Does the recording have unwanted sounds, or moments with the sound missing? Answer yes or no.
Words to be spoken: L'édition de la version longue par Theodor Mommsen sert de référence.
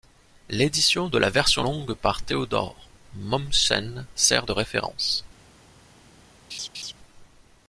yes